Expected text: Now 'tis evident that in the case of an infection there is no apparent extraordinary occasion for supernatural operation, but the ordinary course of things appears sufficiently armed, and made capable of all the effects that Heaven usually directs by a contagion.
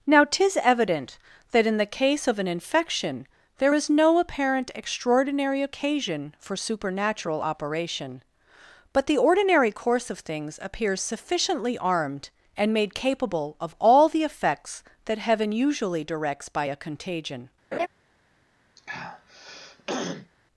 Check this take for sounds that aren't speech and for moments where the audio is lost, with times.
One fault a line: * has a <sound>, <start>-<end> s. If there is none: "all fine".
* has a laugh, 17.7-17.9 s
* has a throat clearing, 18.8-20.3 s